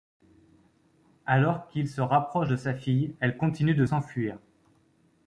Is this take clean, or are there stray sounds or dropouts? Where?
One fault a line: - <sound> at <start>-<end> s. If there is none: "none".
none